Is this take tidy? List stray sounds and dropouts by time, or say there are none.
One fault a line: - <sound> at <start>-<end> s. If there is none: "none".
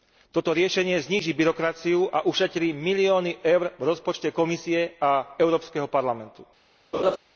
- laugh at 6.9-7.2 s